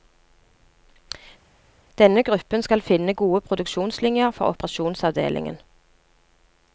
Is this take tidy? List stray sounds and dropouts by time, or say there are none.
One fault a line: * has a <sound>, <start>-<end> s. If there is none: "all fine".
all fine